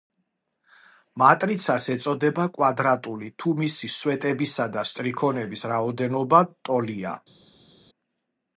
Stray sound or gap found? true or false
false